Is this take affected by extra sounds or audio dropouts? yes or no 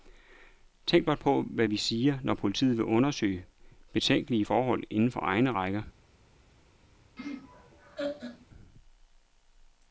yes